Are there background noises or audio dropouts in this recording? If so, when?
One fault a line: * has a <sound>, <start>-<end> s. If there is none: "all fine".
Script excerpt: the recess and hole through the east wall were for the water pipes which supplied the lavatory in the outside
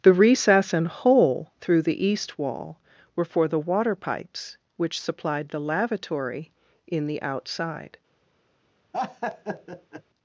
* has a laugh, 8.9-10.0 s